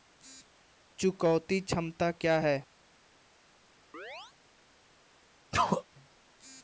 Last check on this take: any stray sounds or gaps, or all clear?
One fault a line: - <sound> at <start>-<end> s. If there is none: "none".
- chirp at 3.9-4.3 s
- sneeze at 5.5-5.8 s